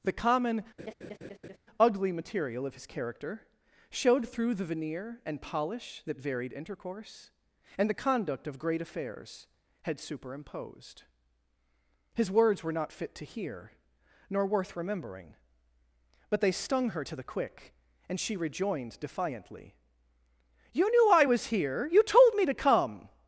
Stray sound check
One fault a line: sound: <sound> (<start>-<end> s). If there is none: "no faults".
sound: laugh (0.8-1.6 s)